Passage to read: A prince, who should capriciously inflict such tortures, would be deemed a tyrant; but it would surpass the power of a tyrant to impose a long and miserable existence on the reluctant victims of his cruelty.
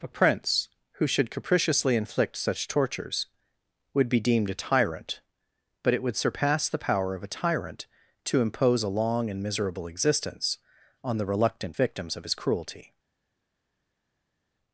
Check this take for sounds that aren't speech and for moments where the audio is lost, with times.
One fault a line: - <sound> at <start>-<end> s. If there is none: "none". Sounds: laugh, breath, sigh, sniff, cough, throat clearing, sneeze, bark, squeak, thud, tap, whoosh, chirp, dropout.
none